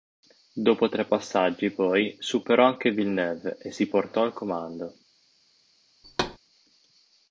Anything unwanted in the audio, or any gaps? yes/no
yes